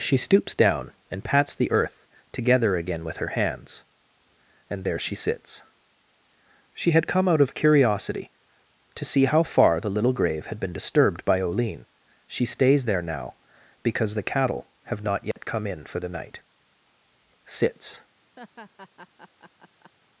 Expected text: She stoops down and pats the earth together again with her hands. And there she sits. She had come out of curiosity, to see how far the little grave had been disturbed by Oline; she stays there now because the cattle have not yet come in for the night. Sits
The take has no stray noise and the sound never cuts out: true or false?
false